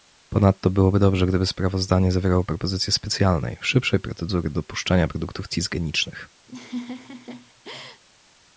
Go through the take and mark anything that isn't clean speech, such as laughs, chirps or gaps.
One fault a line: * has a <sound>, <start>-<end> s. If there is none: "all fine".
* has a laugh, 6.5-8.0 s